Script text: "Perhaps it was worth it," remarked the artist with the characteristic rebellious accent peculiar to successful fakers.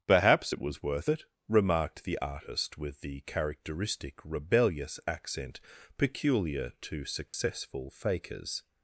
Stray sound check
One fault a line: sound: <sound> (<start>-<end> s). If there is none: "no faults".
sound: dropout (7.3-7.3 s)